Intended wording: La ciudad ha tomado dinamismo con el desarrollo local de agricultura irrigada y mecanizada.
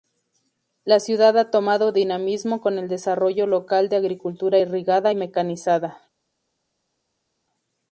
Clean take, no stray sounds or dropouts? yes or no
yes